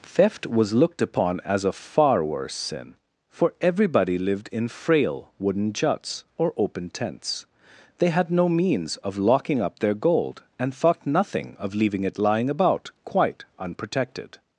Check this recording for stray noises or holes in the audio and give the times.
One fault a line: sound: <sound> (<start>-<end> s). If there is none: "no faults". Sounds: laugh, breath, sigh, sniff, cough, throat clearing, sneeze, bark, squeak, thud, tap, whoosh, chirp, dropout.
no faults